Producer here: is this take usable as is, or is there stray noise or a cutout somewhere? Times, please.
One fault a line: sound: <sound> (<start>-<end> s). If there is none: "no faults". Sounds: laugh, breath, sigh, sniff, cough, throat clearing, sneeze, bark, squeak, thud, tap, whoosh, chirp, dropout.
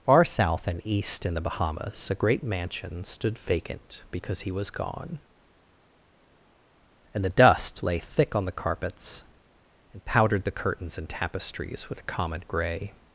no faults